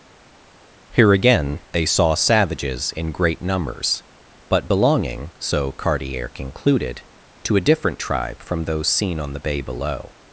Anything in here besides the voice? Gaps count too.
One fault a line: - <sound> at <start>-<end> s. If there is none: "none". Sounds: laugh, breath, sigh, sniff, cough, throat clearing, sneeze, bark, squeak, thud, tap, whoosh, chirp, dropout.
none